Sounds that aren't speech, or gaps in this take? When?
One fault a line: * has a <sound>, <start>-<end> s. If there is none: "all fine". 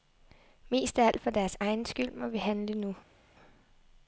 all fine